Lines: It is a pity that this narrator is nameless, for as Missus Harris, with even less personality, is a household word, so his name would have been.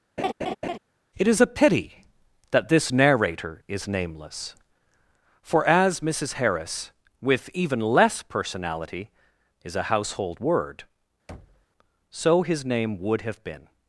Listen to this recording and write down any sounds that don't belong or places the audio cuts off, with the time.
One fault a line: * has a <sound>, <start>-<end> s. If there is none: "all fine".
* has a laugh, 0.2-0.8 s
* has a thud, 11.3-11.7 s